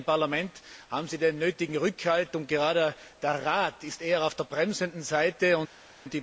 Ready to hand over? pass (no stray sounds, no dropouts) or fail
pass